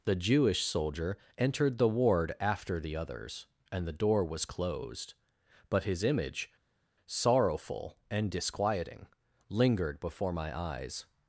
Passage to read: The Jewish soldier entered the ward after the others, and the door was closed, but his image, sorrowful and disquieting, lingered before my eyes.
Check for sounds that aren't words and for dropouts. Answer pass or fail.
pass